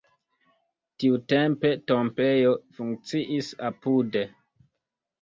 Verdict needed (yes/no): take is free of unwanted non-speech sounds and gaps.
yes